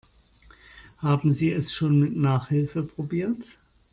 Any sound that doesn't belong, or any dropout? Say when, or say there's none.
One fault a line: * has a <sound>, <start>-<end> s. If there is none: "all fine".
all fine